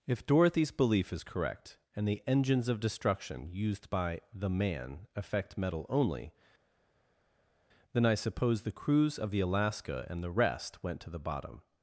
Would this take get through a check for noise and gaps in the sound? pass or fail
pass